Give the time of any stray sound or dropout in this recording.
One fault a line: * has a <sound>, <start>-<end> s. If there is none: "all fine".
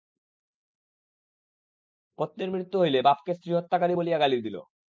all fine